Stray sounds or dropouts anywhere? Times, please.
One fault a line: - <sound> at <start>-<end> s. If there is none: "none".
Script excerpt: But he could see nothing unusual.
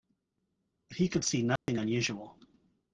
- dropout at 1.6-1.7 s